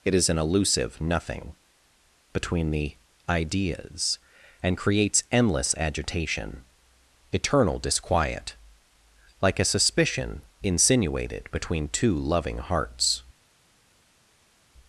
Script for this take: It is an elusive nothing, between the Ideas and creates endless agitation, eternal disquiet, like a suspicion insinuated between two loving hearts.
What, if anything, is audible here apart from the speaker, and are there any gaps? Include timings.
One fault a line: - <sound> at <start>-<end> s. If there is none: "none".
none